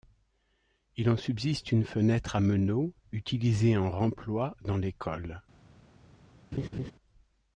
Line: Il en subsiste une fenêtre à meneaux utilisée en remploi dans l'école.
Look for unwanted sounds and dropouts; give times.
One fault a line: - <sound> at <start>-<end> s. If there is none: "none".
- laugh at 6.5-6.9 s